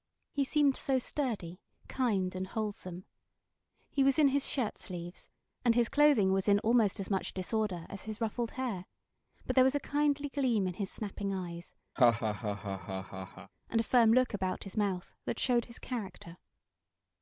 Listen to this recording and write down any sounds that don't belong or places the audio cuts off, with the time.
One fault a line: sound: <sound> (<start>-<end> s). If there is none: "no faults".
sound: laugh (12.0-13.5 s)